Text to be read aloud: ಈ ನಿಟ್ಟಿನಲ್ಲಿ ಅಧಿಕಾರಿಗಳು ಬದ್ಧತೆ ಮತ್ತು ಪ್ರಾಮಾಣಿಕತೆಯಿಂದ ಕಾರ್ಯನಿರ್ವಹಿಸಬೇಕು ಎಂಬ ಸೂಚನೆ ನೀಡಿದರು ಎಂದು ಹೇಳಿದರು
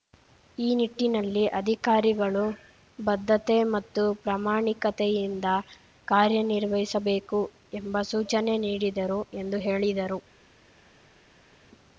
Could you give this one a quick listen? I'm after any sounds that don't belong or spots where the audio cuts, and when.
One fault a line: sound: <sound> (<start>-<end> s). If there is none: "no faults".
no faults